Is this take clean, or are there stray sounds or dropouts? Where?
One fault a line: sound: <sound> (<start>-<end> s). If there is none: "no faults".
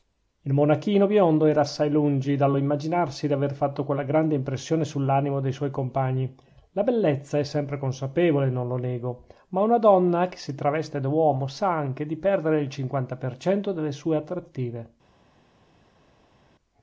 no faults